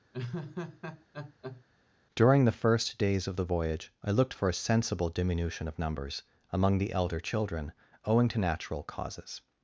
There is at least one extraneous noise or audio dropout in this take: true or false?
true